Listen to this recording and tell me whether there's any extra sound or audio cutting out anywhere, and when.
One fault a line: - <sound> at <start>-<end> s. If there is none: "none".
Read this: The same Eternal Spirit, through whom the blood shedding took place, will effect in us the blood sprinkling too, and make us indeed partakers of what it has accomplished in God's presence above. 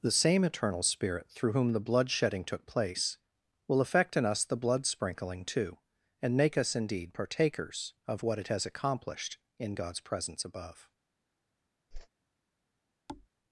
- whoosh at 11.9-12.1 s
- thud at 13.1-13.3 s